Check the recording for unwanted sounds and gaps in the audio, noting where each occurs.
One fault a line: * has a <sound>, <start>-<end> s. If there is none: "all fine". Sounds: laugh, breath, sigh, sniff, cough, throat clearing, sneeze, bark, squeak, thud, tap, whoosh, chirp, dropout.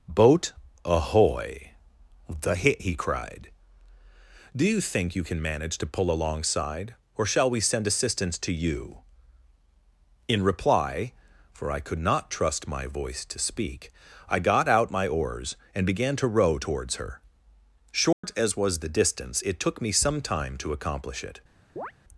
* has a dropout, 18.1-18.2 s
* has a chirp, 21.8-21.9 s